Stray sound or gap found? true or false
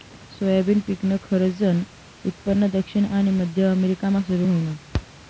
false